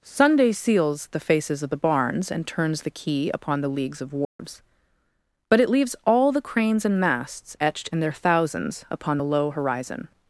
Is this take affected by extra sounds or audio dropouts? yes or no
yes